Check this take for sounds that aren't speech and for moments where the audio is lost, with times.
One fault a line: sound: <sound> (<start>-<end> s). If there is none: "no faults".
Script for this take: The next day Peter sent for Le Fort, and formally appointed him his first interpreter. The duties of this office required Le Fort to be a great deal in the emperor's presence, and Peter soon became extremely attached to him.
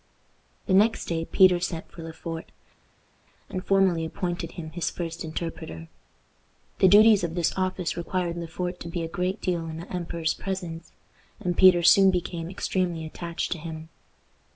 no faults